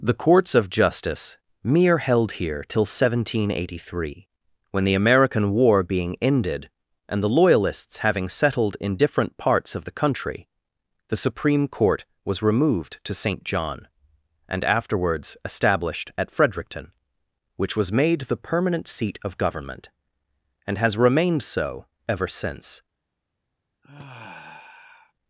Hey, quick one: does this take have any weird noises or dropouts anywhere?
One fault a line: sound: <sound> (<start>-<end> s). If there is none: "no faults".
sound: sigh (23.8-25.1 s)